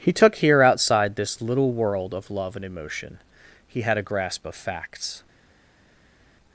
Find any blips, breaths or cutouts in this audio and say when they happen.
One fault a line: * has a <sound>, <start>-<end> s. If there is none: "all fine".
all fine